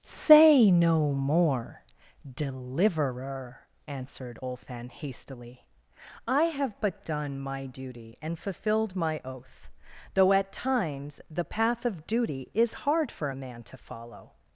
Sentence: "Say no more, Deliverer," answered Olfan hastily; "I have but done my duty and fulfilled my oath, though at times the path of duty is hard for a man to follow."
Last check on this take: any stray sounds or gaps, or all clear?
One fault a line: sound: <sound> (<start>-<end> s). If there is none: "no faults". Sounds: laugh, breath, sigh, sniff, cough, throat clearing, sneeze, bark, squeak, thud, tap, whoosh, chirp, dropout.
no faults